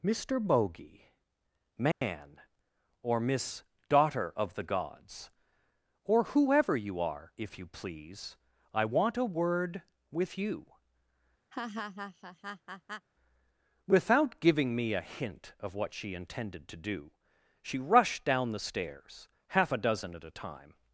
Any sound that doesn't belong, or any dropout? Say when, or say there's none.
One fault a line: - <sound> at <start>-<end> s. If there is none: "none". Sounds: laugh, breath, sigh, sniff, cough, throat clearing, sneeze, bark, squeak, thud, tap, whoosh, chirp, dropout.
- dropout at 1.9-2.0 s
- laugh at 11.5-13.1 s